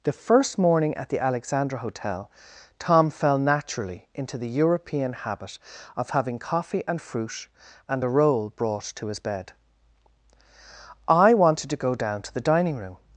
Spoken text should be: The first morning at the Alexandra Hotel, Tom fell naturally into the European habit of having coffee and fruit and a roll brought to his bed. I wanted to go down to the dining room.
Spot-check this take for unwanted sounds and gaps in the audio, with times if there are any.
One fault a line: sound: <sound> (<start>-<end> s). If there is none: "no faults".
no faults